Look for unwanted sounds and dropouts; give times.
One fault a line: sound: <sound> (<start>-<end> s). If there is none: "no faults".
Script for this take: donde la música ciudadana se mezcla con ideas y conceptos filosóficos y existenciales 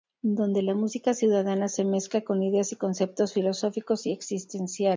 no faults